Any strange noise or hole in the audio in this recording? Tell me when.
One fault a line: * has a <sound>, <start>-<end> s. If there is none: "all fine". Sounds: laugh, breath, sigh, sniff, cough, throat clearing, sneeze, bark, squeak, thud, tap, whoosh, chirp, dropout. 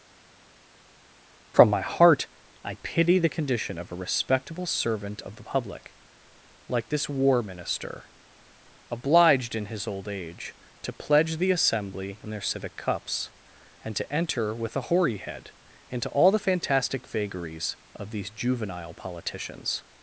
all fine